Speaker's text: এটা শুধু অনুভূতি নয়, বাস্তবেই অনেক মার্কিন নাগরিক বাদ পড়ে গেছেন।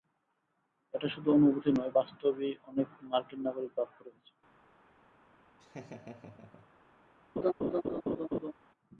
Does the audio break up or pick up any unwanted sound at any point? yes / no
yes